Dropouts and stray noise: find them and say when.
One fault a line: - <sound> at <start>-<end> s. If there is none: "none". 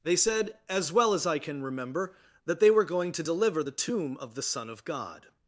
none